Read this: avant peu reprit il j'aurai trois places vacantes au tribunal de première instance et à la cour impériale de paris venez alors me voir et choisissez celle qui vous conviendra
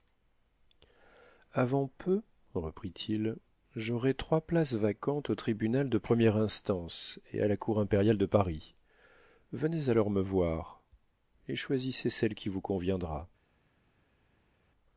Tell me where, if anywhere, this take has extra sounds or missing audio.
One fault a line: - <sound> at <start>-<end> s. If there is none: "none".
none